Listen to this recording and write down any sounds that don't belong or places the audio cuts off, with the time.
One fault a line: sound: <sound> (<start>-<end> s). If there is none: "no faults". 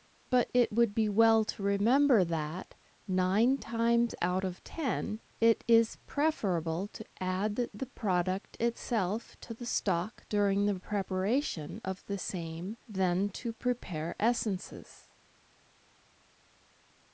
no faults